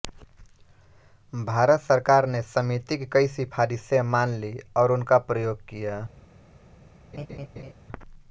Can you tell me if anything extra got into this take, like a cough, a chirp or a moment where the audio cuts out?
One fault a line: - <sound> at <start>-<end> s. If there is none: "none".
- laugh at 7.1-7.7 s